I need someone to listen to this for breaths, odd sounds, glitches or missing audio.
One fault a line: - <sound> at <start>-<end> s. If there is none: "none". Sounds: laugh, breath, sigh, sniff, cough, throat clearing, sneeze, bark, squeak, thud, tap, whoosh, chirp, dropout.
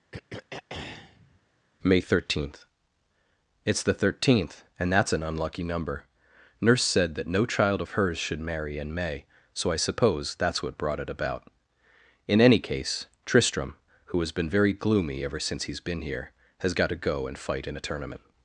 - throat clearing at 0.1-1.4 s